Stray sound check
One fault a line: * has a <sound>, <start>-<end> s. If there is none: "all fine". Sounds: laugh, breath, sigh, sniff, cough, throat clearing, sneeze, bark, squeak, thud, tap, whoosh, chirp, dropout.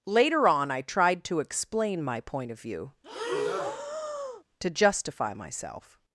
* has a breath, 3.0-4.4 s